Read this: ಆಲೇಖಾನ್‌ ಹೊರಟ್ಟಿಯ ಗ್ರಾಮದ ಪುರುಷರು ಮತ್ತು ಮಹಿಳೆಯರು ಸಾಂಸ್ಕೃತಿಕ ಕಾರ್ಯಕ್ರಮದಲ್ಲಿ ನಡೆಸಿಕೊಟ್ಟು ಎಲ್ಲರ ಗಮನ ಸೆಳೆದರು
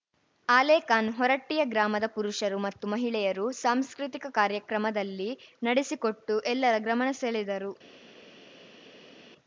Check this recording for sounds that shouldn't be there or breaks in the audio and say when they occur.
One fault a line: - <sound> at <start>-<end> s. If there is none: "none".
none